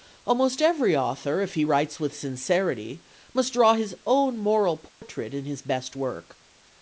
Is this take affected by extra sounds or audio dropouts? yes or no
yes